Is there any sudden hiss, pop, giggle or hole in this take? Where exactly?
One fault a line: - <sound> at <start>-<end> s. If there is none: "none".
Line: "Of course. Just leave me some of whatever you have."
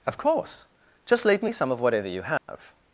- dropout at 2.4-2.5 s